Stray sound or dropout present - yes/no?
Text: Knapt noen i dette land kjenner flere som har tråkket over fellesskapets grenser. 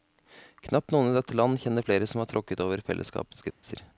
yes